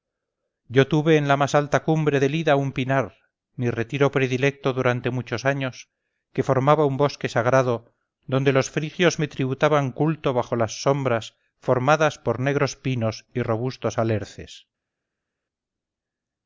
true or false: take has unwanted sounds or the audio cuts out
false